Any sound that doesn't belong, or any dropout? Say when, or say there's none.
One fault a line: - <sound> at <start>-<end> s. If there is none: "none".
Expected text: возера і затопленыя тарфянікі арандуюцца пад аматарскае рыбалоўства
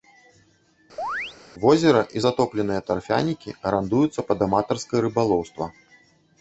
- chirp at 1.0-1.4 s